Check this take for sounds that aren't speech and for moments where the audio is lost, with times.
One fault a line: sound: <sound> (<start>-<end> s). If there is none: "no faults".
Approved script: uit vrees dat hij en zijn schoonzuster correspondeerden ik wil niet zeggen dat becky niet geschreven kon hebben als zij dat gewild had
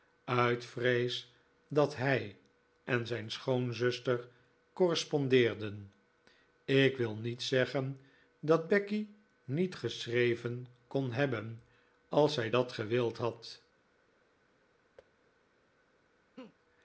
sound: thud (15.0-15.1 s)
sound: laugh (16.4-16.6 s)